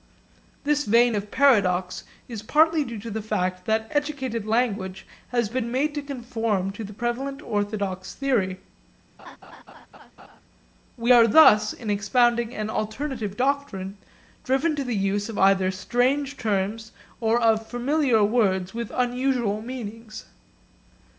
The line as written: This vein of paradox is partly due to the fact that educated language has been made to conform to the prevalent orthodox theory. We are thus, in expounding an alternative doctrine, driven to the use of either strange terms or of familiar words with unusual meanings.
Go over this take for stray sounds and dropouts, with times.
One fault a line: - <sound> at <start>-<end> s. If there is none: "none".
- laugh at 9.2-10.4 s